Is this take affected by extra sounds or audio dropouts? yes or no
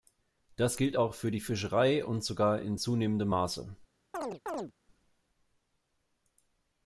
yes